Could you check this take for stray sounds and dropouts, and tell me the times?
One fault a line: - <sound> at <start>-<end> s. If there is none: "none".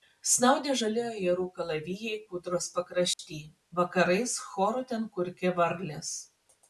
- dropout at 3.1-3.2 s